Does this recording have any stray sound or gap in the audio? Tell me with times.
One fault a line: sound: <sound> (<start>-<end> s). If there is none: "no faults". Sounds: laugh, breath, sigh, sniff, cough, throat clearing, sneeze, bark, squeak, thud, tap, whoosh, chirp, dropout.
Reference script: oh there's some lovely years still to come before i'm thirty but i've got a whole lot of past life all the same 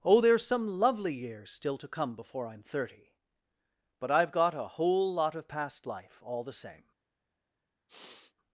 sound: sniff (7.9-8.3 s)